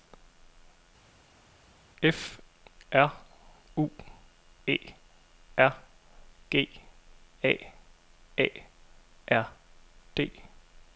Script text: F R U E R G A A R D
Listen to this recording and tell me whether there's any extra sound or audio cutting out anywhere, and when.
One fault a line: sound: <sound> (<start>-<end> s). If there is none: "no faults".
no faults